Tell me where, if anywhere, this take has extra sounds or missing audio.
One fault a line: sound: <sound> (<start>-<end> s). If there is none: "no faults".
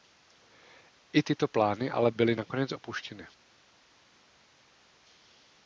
no faults